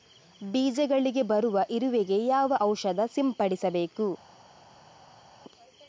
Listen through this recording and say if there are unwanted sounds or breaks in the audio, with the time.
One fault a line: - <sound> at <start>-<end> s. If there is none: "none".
none